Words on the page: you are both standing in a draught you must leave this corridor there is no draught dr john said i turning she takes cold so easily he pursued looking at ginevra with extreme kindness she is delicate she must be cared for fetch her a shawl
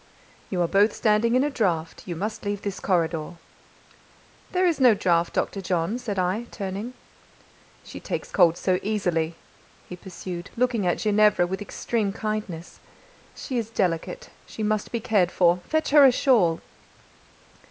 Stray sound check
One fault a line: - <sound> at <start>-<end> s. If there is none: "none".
none